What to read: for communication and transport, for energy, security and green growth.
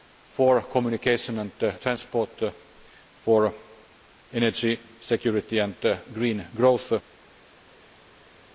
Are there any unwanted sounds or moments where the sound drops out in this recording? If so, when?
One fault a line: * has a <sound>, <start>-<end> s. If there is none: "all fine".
all fine